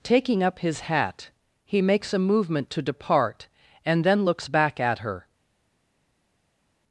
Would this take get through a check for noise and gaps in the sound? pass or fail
pass